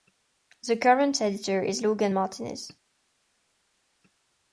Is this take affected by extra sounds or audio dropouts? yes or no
no